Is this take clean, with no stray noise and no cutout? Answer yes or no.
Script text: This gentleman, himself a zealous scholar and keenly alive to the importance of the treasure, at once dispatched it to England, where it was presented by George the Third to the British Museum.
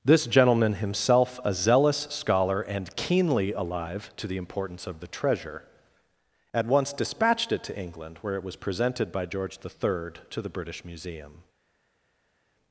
yes